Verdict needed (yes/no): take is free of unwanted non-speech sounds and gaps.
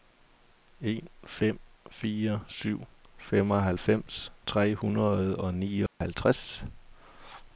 no